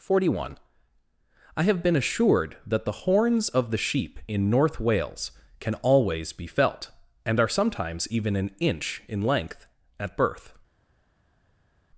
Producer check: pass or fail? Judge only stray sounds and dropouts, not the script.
pass